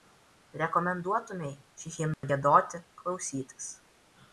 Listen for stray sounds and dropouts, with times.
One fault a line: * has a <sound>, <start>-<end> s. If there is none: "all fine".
* has a dropout, 2.1-2.2 s